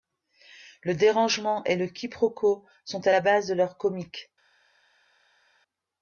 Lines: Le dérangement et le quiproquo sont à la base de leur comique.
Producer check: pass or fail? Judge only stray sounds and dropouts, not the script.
pass